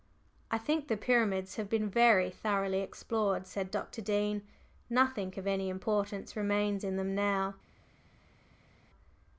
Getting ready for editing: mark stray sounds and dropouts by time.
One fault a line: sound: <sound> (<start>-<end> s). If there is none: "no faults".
no faults